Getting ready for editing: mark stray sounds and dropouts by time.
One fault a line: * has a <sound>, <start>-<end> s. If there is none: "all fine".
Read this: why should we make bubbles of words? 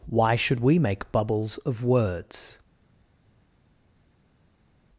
all fine